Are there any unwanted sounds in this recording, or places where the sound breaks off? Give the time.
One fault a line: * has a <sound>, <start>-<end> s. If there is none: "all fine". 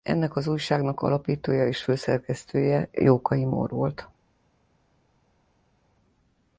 all fine